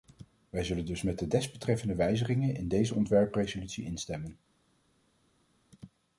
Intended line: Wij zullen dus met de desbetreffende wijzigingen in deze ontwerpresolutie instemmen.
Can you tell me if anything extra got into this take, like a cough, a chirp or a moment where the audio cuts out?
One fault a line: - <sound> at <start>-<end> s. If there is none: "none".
none